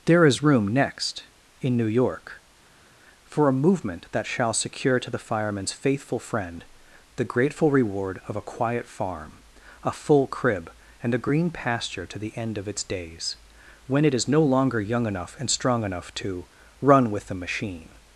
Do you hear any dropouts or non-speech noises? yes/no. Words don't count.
no